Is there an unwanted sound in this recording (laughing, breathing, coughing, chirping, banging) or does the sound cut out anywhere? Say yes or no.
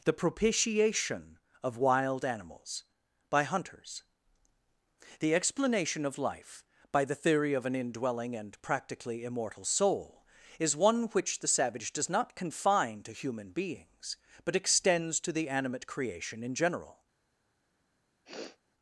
yes